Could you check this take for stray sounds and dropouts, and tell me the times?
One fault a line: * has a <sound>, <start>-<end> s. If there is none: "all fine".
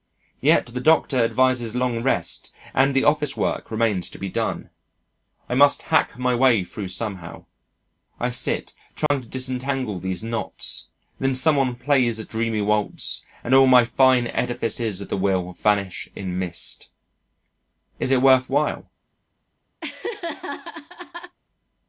* has a dropout, 9.1-9.1 s
* has a laugh, 19.8-21.4 s